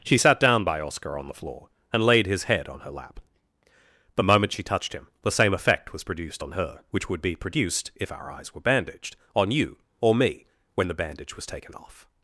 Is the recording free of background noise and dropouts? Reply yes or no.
yes